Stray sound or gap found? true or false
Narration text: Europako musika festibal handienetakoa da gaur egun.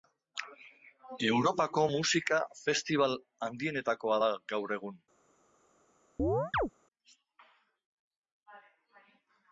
true